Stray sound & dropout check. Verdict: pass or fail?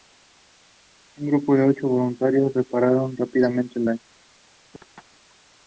fail